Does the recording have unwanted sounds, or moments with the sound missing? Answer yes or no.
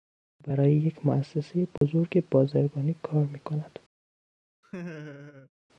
yes